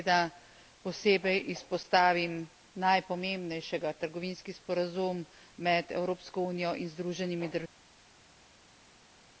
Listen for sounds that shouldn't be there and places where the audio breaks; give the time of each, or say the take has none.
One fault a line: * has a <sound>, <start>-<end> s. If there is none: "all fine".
all fine